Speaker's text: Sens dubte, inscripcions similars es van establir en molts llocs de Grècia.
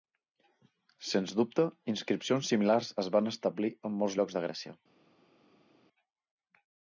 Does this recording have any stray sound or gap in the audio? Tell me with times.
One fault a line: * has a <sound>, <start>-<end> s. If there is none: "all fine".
all fine